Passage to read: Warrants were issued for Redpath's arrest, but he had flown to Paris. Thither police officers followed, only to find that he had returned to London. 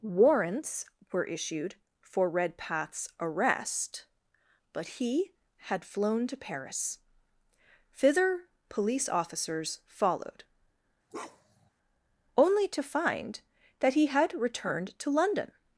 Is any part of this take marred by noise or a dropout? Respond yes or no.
yes